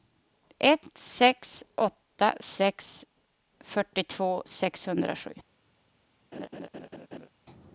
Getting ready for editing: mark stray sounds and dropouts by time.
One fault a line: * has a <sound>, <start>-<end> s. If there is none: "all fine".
* has a laugh, 6.3-7.3 s